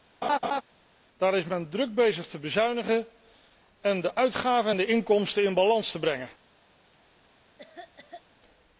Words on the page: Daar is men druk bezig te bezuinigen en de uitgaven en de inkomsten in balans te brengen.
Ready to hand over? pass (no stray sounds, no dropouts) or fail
fail